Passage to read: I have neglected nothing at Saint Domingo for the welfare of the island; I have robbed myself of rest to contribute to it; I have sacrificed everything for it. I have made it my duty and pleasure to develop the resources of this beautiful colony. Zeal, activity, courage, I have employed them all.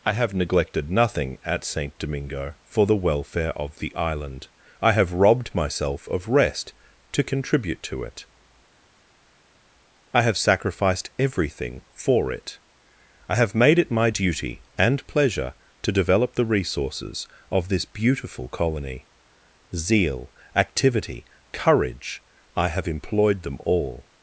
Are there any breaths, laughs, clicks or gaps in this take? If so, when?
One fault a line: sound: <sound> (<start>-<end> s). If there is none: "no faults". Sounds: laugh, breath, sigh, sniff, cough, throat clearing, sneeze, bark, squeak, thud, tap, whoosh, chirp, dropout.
no faults